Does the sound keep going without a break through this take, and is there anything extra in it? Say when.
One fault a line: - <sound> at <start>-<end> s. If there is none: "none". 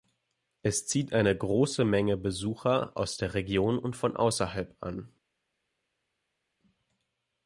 none